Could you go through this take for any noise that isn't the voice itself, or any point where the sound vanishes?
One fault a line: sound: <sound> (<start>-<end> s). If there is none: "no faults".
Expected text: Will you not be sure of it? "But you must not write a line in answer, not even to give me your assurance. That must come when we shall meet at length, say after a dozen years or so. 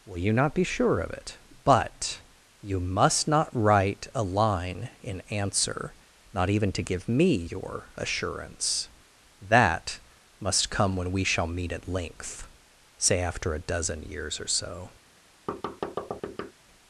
sound: thud (15.5-16.5 s)